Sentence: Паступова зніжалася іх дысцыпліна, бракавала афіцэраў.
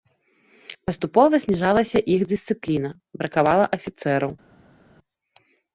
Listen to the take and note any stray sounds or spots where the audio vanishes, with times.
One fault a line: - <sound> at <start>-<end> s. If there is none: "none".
none